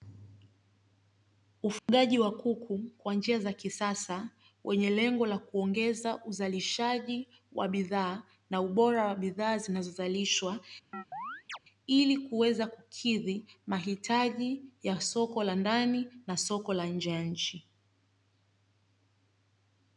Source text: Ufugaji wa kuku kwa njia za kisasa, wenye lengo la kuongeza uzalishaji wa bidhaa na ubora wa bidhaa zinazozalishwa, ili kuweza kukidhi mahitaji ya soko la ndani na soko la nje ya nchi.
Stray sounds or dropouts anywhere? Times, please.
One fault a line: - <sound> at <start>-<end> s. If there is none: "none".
- dropout at 1.8-1.9 s
- chirp at 10.9-11.6 s